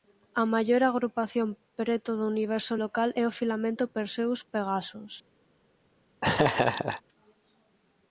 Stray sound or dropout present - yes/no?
yes